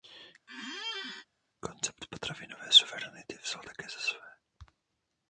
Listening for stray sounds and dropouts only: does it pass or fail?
fail